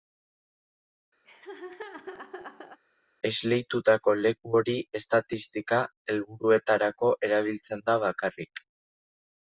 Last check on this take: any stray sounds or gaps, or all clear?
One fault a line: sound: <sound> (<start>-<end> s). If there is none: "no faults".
sound: laugh (1.2-2.8 s)